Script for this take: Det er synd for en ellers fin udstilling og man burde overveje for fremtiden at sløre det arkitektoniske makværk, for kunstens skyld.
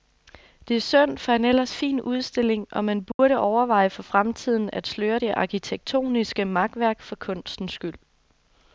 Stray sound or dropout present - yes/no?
yes